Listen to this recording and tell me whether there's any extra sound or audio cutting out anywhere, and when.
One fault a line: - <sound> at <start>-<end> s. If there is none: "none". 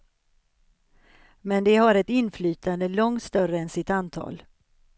none